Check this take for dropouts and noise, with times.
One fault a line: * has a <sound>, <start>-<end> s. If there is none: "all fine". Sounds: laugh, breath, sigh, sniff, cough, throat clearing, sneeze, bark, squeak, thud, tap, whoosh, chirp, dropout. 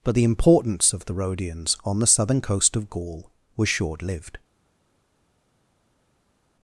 all fine